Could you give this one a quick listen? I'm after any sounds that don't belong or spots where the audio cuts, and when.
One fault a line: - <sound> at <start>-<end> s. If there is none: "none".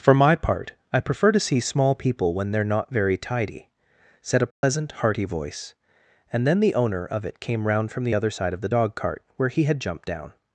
- dropout at 4.5-4.6 s